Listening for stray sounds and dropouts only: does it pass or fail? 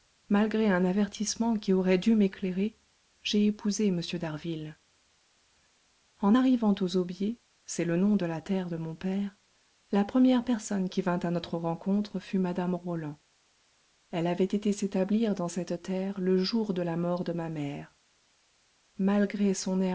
pass